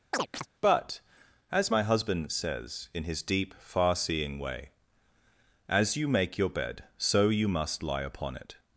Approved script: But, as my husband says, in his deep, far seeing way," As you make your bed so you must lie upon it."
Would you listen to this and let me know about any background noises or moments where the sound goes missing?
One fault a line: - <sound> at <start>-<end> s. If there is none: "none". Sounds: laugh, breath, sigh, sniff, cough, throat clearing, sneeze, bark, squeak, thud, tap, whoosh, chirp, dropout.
- chirp at 0.1-0.5 s